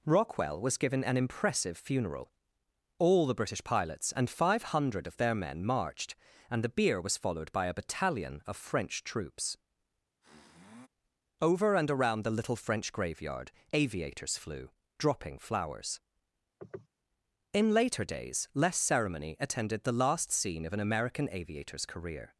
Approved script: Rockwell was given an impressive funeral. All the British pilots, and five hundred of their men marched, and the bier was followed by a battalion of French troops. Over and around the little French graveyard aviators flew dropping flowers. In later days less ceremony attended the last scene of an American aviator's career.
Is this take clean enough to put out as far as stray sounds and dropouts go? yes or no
no